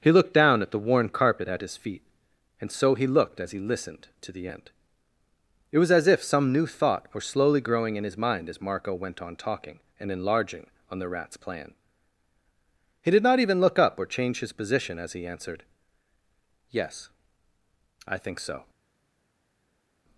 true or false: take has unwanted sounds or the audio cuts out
false